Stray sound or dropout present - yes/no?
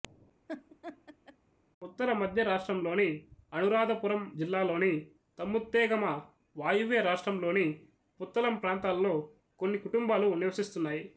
yes